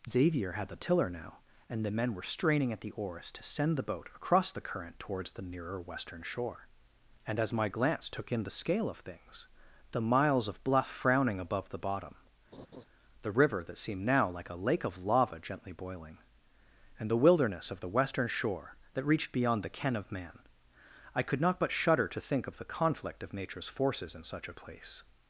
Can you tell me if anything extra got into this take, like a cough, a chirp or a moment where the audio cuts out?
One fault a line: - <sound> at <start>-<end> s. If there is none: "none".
- laugh at 12.5-12.8 s